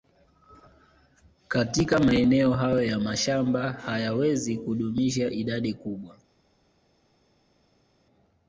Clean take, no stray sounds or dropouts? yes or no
yes